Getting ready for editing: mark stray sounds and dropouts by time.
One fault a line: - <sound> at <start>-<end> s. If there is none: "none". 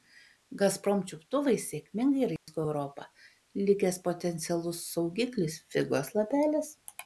- dropout at 2.4-2.5 s